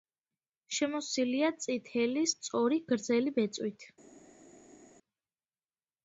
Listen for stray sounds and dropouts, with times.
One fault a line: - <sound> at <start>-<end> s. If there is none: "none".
none